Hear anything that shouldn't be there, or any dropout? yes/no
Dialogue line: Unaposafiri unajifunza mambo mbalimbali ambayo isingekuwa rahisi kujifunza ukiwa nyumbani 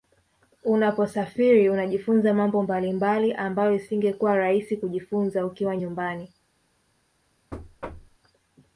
yes